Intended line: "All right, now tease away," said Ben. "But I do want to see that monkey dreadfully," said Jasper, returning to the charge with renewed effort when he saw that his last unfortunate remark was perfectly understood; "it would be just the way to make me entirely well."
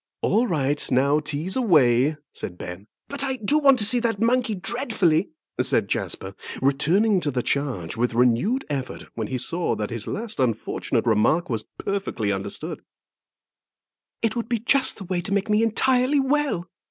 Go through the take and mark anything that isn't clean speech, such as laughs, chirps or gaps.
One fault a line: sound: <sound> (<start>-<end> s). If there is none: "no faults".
no faults